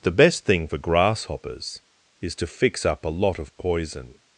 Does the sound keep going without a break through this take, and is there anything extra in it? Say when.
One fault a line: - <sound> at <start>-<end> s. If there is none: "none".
none